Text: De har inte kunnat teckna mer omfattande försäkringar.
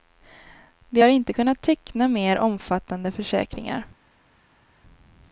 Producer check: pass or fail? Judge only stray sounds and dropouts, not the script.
pass